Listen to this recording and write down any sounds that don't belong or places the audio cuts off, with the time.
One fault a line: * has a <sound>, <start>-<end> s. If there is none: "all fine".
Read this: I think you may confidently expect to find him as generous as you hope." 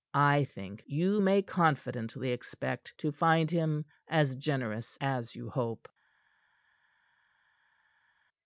all fine